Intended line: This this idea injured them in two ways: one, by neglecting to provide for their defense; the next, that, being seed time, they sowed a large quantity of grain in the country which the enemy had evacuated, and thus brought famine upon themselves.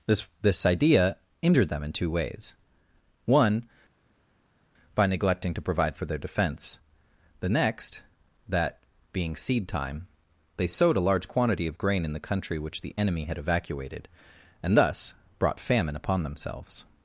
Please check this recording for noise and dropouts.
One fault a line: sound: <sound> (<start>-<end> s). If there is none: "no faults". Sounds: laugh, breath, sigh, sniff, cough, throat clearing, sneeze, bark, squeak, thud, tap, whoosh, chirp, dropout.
no faults